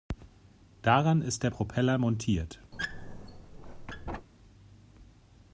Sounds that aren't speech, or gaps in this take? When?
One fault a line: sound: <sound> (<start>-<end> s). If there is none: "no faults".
sound: squeak (2.7-4.3 s)